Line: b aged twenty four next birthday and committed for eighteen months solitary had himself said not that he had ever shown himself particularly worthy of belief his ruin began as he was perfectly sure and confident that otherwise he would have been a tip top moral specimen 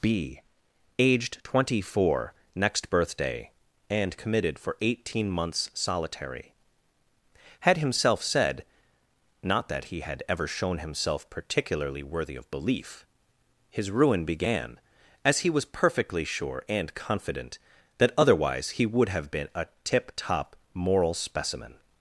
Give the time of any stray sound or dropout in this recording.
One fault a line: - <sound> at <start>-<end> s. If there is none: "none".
none